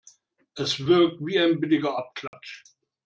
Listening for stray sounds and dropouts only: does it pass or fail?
fail